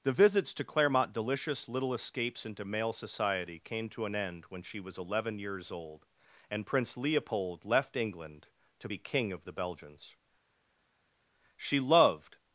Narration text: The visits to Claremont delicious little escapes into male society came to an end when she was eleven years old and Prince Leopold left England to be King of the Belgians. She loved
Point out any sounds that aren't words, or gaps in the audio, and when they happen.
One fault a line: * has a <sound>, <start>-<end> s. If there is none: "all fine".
all fine